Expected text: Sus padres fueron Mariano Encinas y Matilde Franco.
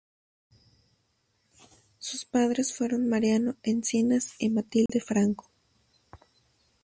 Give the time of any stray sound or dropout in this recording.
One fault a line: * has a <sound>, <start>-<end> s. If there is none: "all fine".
* has a dropout, 4.9-4.9 s